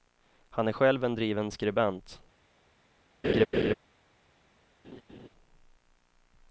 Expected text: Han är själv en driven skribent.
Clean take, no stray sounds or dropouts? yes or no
no